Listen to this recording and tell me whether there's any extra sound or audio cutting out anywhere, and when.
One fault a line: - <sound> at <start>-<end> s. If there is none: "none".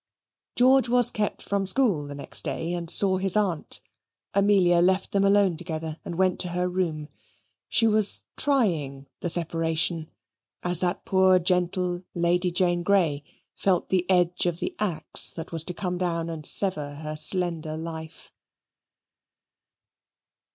none